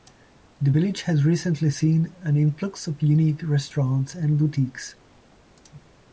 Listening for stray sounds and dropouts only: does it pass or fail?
pass